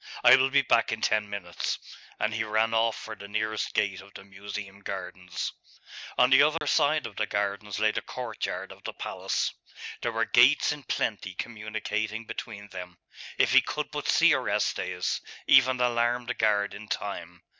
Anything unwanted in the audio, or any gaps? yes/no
yes